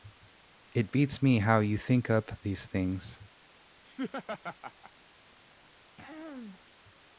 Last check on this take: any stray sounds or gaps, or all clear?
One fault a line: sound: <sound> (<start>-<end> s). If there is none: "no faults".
sound: laugh (3.8-4.9 s)
sound: throat clearing (6.0-6.7 s)